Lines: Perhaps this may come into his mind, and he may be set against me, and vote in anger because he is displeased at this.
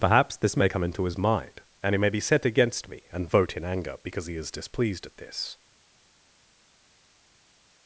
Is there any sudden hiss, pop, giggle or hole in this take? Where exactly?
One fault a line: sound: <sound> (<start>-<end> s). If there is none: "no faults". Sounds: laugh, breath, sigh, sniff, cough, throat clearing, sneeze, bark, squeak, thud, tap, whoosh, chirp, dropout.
no faults